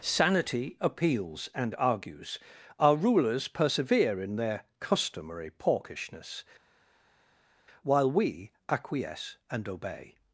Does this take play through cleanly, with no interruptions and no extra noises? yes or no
yes